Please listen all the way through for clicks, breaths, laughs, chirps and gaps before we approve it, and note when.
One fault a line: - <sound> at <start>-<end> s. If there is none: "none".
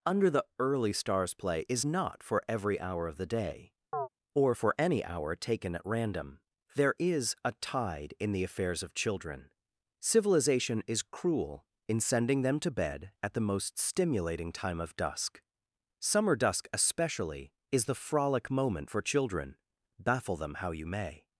- chirp at 3.9-4.1 s